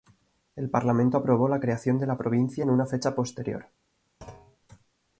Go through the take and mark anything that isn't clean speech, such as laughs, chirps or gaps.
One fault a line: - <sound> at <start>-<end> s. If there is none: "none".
- thud at 4.2-4.6 s